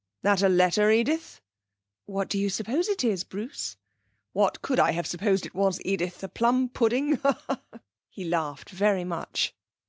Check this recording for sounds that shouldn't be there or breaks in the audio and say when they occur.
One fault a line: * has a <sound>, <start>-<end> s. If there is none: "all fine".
all fine